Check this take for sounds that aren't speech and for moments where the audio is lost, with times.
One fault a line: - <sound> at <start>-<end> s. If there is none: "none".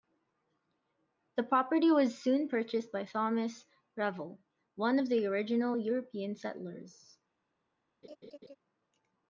- laugh at 8.0-8.6 s